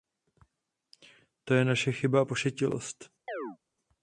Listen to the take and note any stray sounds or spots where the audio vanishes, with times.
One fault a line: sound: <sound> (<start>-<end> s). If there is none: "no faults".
sound: chirp (3.3-3.6 s)